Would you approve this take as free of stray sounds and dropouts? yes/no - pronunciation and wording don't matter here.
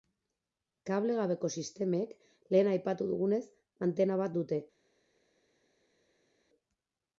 yes